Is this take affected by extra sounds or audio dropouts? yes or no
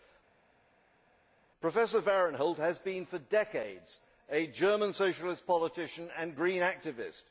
no